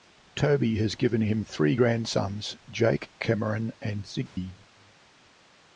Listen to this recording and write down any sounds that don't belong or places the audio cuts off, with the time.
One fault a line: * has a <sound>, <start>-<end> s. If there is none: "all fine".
* has a dropout, 4.3-4.4 s